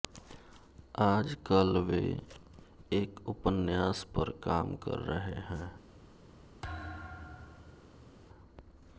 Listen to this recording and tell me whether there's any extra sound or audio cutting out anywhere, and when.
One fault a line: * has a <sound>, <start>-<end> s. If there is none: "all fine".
* has a thud, 6.6-8.1 s